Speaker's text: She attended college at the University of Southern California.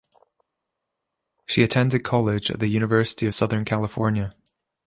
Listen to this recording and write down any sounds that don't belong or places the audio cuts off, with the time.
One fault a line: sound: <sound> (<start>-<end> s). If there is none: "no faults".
no faults